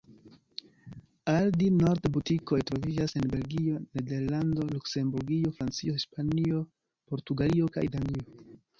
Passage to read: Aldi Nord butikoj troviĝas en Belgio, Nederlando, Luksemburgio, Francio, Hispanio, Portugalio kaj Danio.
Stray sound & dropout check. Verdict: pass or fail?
pass